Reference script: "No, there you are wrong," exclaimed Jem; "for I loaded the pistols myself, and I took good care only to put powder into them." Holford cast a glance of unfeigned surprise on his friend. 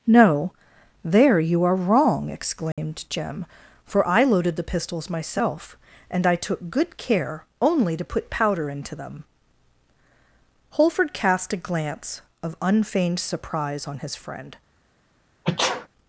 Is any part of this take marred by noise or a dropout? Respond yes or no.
yes